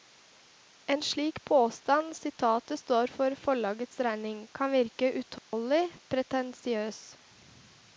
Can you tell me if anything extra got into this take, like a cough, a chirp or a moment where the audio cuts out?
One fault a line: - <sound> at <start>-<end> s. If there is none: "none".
- dropout at 5.4-5.5 s